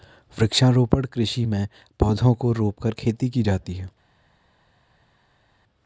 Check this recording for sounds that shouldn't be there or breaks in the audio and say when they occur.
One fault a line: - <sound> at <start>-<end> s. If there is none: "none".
none